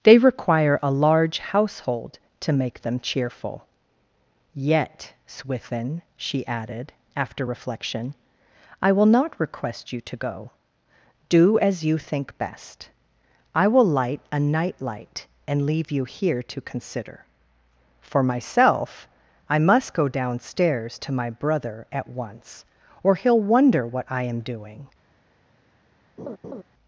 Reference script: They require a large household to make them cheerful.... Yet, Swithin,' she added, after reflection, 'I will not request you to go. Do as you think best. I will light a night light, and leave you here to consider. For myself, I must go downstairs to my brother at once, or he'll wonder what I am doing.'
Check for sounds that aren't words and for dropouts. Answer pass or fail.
fail